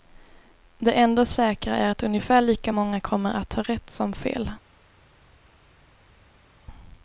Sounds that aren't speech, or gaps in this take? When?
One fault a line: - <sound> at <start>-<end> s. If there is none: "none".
none